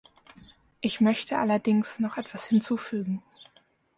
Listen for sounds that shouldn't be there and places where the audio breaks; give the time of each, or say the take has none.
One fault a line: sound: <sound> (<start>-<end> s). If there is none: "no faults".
no faults